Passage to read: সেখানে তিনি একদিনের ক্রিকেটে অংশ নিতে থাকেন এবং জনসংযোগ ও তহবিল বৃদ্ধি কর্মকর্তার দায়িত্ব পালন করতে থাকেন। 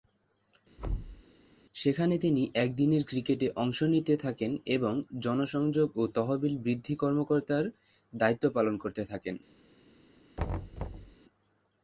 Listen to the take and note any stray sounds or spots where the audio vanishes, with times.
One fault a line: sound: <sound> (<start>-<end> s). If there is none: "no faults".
sound: thud (0.8-1.2 s)
sound: thud (10.4-11.2 s)